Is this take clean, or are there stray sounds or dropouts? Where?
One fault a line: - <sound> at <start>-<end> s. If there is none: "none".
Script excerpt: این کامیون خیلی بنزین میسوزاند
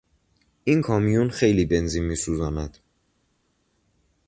none